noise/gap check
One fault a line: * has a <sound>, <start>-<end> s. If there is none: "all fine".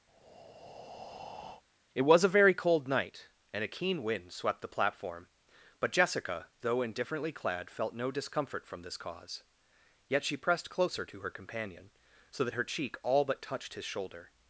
* has a breath, 0.1-1.6 s